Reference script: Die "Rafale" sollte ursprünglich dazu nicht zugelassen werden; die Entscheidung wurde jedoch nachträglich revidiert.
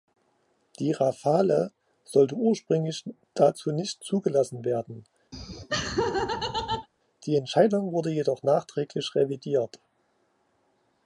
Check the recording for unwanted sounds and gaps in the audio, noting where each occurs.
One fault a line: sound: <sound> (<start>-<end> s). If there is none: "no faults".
sound: laugh (5.3-6.9 s)